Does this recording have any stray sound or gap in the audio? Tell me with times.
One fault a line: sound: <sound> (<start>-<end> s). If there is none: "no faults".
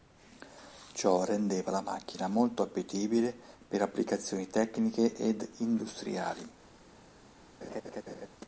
sound: laugh (7.6-8.3 s)